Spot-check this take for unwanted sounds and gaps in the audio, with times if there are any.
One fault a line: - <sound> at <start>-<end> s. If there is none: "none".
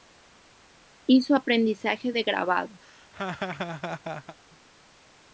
- laugh at 2.8-4.4 s